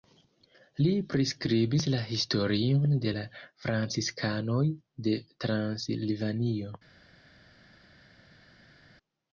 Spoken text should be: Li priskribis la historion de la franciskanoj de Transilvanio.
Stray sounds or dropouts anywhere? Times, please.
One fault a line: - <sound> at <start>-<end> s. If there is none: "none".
none